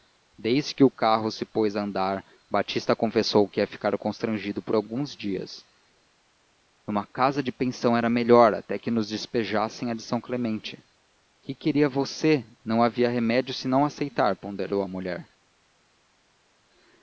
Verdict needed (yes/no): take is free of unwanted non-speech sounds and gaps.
yes